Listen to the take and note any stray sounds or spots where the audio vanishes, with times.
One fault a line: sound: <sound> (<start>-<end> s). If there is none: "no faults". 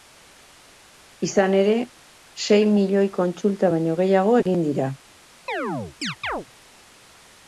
sound: dropout (4.4-4.5 s)
sound: chirp (5.5-6.5 s)